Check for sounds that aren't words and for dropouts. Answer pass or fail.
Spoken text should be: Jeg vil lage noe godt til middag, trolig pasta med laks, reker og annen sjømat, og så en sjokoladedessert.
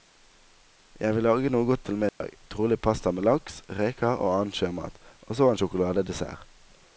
fail